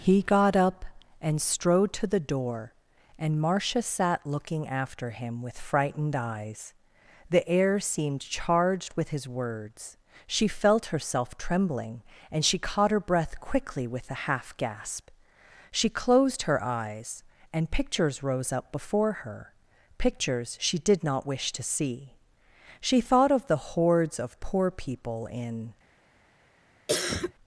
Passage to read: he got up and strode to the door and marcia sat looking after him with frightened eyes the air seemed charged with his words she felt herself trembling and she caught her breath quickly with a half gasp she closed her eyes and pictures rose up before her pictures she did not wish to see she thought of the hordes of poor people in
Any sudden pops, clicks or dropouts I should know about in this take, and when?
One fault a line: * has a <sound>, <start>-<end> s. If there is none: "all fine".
* has a cough, 26.9-27.3 s